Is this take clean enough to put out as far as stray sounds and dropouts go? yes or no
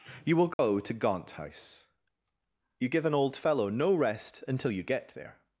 no